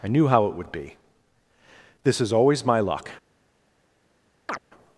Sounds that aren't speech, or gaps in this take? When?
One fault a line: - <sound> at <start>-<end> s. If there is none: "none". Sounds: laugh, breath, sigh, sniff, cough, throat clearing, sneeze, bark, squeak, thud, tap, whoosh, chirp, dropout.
- chirp at 4.5-4.6 s